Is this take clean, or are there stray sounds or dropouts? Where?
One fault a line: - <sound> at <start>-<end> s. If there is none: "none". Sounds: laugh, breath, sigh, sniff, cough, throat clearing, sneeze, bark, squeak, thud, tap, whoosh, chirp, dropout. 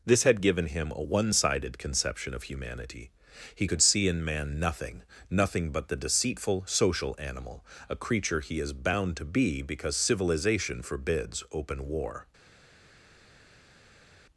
none